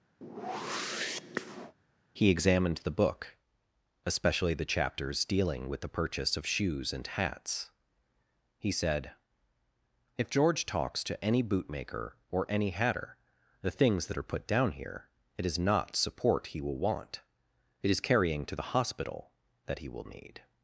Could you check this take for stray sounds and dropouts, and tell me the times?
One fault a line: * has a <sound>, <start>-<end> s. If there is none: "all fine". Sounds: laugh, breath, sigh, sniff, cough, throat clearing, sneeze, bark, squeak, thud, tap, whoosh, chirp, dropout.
* has a whoosh, 0.2-1.7 s